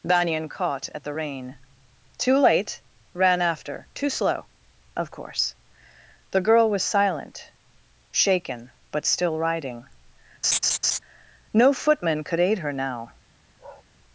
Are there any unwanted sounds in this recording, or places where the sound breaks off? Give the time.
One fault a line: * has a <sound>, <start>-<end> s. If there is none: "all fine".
* has a laugh, 10.4-11.0 s
* has a bark, 13.6-13.9 s